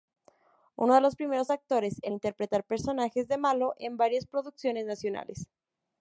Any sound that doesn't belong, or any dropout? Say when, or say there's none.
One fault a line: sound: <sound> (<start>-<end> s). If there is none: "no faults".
no faults